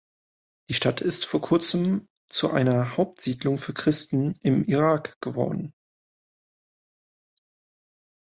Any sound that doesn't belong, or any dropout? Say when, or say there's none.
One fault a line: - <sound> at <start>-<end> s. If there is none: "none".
none